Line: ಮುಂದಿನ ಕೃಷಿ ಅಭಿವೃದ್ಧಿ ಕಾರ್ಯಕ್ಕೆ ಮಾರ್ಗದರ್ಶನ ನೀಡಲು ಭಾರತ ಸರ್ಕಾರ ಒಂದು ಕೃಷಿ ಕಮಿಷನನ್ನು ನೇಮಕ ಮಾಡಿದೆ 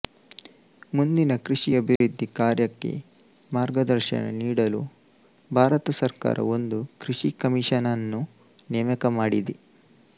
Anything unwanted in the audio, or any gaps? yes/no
yes